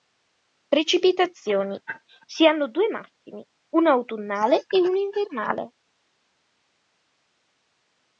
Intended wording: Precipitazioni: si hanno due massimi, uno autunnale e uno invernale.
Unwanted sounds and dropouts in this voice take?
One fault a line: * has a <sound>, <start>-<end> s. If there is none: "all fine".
all fine